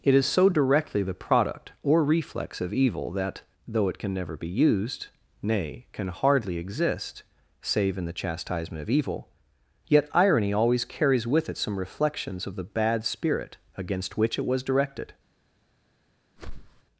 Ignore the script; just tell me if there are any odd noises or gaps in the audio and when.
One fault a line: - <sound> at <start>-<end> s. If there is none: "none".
- whoosh at 16.4-16.8 s